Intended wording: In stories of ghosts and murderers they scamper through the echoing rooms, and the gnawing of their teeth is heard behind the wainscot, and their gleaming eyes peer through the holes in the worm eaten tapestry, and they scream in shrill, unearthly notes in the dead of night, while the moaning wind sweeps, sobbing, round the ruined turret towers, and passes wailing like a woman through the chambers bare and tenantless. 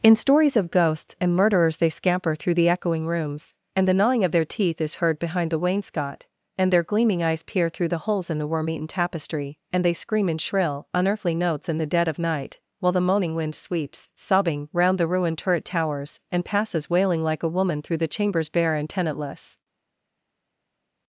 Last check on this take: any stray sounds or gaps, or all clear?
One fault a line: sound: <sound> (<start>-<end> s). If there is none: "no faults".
no faults